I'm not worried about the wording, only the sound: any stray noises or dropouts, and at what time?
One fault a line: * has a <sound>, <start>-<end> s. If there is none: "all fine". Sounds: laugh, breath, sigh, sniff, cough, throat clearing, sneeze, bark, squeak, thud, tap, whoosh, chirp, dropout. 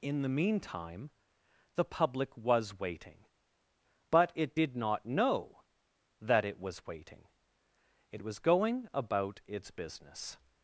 all fine